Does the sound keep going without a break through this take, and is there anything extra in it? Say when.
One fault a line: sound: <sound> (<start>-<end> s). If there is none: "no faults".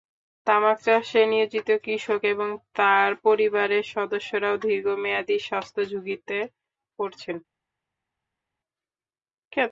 no faults